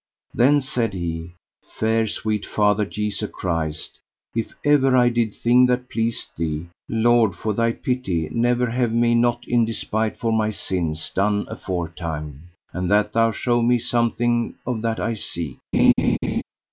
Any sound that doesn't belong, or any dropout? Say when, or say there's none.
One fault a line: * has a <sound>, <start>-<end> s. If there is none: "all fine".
* has a laugh, 15.7-16.4 s